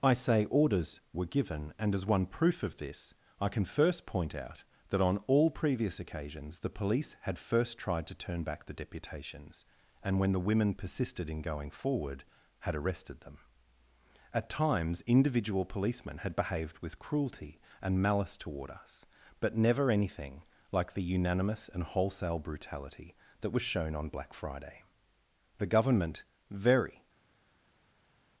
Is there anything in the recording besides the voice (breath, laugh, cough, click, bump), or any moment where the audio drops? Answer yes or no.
no